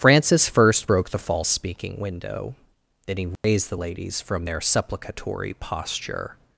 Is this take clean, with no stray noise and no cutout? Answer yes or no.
no